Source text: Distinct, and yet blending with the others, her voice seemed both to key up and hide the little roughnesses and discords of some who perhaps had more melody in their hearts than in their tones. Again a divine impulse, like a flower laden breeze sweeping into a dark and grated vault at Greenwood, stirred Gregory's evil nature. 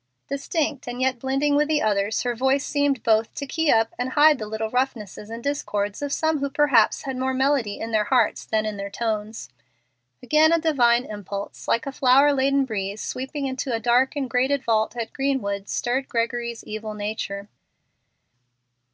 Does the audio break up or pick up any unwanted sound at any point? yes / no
no